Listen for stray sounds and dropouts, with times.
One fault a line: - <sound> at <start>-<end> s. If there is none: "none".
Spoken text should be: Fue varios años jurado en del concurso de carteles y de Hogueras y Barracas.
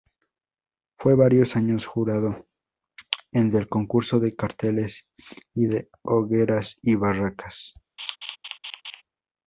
- laugh at 8.0-9.0 s